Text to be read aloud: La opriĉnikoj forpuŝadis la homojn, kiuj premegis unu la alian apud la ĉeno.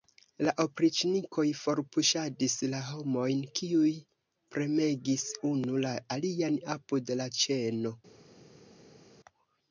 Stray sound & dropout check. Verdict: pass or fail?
pass